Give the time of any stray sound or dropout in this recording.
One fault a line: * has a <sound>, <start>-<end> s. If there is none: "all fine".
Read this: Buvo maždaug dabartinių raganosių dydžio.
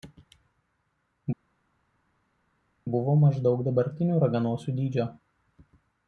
all fine